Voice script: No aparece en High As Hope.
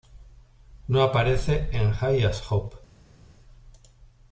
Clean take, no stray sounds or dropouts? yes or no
yes